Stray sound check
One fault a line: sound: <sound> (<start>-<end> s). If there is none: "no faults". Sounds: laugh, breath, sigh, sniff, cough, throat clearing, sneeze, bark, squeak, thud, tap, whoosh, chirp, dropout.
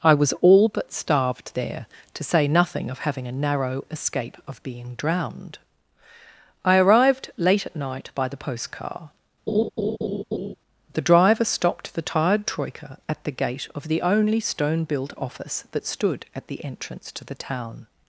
sound: laugh (9.5-10.5 s)